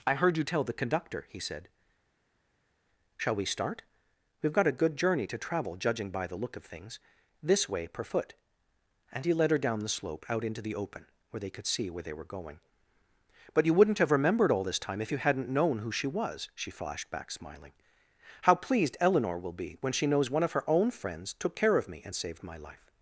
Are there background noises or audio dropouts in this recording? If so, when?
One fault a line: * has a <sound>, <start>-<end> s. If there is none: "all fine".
all fine